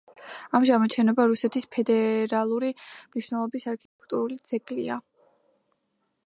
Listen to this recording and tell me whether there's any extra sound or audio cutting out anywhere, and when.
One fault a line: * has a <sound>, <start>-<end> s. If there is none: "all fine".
* has a dropout, 3.9-4.0 s